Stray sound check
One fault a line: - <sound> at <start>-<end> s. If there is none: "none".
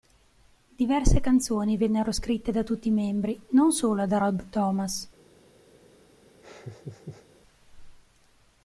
- laugh at 6.4-7.3 s